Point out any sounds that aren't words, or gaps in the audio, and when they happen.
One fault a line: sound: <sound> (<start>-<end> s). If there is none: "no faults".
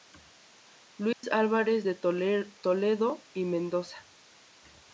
sound: dropout (1.1-1.2 s)